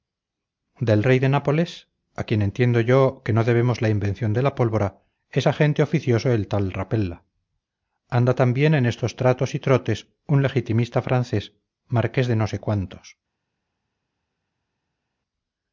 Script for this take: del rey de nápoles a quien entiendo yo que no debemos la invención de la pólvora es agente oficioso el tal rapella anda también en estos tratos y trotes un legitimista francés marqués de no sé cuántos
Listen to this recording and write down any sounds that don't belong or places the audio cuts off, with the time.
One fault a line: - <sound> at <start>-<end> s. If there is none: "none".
none